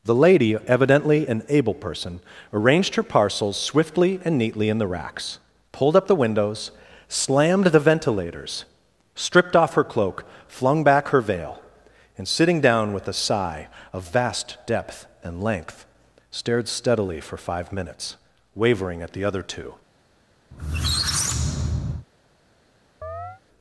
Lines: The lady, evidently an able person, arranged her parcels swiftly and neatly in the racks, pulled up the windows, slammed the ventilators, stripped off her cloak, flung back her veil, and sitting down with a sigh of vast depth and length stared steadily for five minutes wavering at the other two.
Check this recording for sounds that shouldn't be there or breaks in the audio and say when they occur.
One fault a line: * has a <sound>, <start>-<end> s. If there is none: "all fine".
* has a squeak, 20.5-22.1 s
* has a chirp, 23.0-23.4 s